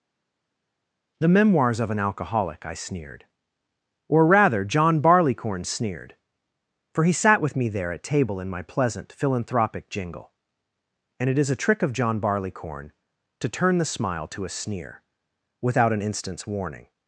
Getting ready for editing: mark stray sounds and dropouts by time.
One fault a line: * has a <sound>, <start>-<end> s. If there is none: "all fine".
all fine